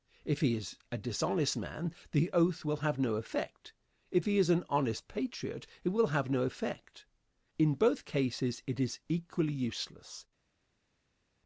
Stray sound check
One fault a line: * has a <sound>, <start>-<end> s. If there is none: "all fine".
all fine